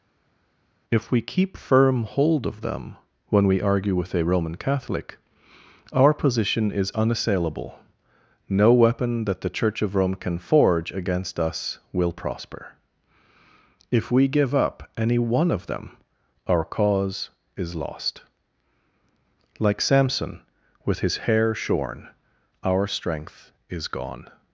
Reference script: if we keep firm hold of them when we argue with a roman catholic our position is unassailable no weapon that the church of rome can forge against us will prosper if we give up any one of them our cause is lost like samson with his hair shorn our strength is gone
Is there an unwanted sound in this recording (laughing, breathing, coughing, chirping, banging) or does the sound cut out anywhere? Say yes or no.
no